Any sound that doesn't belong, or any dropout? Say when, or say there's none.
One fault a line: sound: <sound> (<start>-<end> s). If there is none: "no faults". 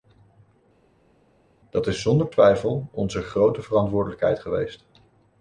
no faults